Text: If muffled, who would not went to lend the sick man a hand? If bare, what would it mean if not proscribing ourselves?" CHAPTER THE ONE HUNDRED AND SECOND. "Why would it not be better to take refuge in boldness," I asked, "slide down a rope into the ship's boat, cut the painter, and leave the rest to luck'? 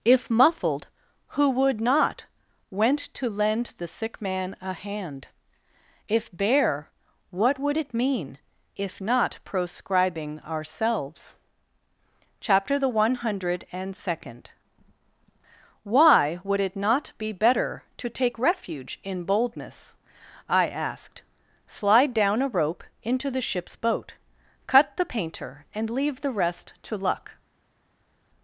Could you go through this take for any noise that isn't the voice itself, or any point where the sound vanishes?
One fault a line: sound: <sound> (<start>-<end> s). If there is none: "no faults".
no faults